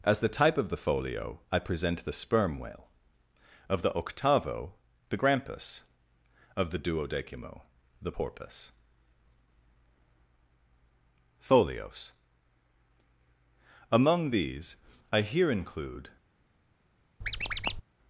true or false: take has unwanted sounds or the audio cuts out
true